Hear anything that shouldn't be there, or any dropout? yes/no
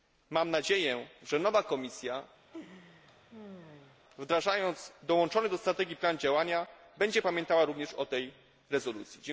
yes